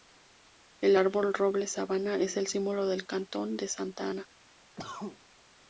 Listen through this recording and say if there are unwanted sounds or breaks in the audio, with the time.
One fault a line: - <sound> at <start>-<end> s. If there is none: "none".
- cough at 4.8-5.2 s